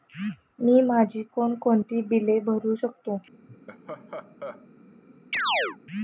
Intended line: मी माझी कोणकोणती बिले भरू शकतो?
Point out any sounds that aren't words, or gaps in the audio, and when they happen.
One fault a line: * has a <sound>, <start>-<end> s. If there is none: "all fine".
* has a laugh, 3.5-4.7 s
* has a chirp, 5.3-5.8 s